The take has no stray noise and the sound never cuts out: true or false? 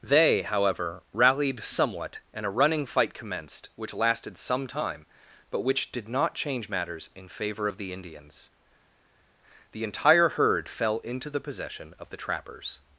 true